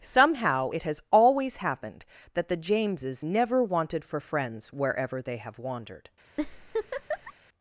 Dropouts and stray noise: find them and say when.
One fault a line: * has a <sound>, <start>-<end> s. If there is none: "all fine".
* has a laugh, 6.4-7.3 s